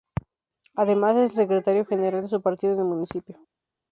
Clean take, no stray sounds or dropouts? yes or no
yes